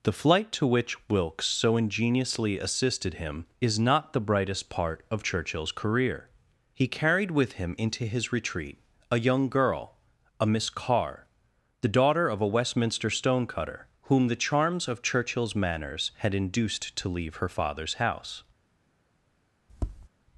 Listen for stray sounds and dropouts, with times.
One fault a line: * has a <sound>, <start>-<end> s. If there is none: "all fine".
* has a tap, 19.7-20.1 s